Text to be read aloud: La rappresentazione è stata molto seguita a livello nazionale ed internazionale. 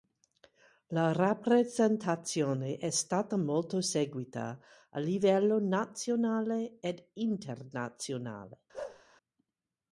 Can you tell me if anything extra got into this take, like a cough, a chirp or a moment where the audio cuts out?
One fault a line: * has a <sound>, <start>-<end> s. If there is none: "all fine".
* has a bark, 8.7-9.0 s